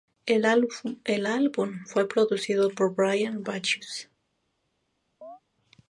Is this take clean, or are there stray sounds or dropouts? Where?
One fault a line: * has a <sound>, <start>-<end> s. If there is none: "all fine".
* has a chirp, 5.2-5.4 s